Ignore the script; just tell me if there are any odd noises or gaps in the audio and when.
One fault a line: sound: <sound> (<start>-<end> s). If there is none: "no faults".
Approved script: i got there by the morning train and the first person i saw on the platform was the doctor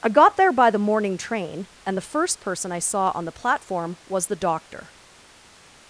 no faults